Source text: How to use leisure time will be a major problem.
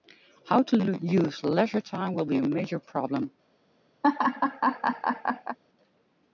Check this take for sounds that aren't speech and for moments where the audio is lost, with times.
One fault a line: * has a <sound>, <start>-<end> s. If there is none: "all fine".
* has a laugh, 4.0-5.6 s